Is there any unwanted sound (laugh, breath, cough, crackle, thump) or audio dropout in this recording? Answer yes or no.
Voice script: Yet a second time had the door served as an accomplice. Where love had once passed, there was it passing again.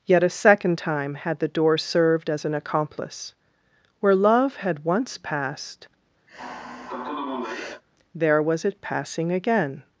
yes